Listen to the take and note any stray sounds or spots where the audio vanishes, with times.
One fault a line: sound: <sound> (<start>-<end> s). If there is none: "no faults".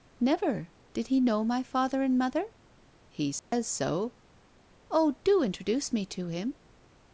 sound: dropout (3.4-3.5 s)